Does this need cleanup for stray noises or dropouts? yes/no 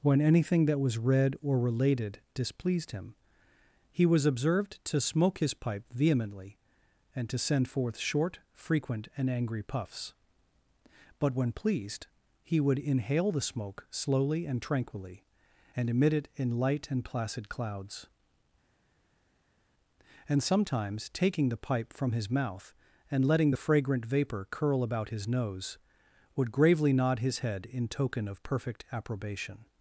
no